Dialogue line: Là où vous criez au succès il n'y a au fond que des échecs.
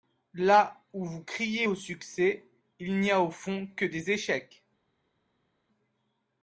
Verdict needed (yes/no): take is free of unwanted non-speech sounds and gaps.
yes